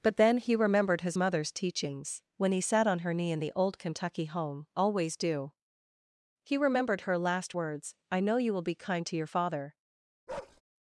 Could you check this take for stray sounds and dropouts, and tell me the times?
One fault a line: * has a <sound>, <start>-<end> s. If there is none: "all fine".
* has a bark, 10.3-10.6 s